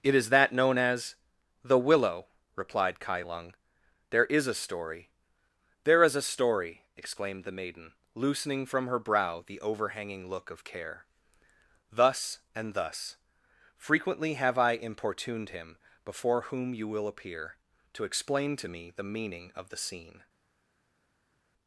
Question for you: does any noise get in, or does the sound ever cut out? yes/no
no